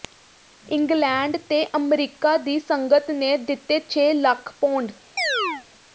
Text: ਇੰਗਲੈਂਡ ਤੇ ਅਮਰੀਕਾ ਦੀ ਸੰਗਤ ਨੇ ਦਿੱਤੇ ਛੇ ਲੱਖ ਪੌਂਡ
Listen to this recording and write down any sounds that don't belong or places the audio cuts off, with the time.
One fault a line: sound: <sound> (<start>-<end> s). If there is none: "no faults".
sound: chirp (5.2-5.6 s)